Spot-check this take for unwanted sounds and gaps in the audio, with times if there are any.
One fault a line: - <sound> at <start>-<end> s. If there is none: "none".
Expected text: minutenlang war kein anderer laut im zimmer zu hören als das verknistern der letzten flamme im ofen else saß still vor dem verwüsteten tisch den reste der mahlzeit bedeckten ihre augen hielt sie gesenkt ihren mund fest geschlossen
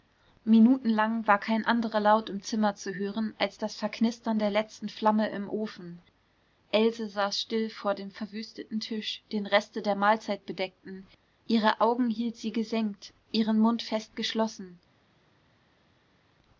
none